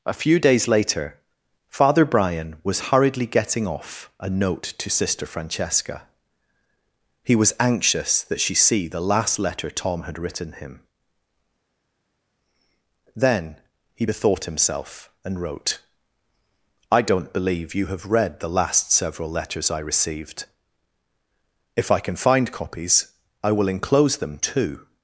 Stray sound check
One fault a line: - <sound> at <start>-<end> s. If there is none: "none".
none